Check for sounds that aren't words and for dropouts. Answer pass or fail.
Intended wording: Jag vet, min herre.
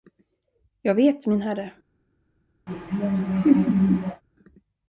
fail